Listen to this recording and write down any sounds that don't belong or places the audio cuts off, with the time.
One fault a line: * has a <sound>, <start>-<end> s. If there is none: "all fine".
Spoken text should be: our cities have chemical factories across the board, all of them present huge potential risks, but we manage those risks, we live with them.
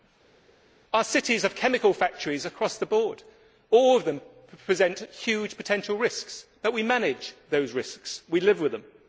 all fine